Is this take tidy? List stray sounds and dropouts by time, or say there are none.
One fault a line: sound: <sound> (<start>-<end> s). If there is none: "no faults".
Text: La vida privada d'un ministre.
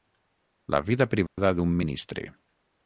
sound: dropout (1.3-1.4 s)